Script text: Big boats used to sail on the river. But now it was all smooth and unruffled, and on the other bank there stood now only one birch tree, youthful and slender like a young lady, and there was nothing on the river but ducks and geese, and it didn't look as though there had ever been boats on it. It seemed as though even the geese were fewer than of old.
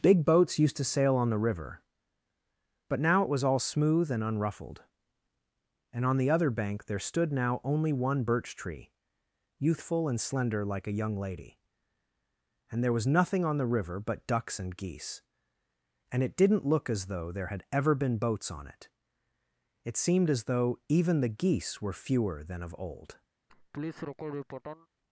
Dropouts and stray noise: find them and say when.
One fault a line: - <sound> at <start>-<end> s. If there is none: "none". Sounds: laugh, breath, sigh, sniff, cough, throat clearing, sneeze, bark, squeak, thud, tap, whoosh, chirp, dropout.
- laugh at 23.5-24.9 s